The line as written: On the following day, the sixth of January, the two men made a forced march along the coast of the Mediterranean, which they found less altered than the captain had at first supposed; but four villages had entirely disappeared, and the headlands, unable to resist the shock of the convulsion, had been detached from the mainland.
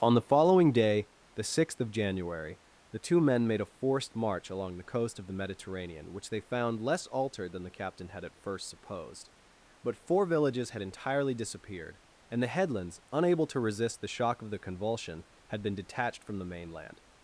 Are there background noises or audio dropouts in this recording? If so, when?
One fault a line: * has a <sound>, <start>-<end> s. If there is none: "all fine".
all fine